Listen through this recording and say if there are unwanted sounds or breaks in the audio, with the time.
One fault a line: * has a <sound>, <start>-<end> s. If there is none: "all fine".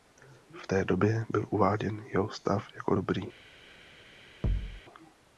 * has a thud, 4.4-4.8 s